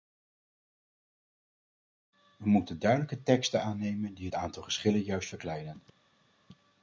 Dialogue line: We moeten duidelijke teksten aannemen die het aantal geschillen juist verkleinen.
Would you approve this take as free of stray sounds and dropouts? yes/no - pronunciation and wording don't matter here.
yes